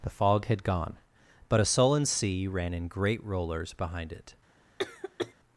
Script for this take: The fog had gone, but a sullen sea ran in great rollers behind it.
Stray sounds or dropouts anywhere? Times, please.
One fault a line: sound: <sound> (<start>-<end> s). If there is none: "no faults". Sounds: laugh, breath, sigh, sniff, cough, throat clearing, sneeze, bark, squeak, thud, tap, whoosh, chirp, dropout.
sound: cough (4.8-5.3 s)